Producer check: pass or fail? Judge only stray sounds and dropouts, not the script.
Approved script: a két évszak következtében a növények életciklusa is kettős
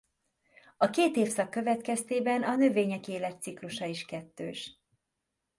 pass